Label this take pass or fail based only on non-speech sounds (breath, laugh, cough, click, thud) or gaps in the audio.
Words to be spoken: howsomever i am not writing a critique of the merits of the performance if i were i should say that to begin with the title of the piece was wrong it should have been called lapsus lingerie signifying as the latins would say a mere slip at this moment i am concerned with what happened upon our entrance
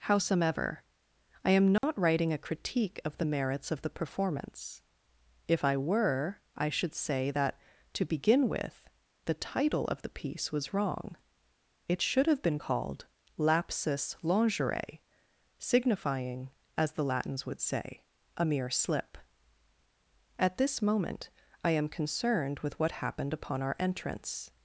fail